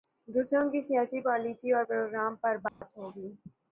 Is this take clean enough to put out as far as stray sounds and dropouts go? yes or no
no